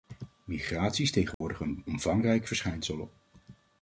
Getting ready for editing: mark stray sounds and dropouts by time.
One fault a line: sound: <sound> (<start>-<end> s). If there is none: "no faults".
sound: dropout (1.3-1.4 s)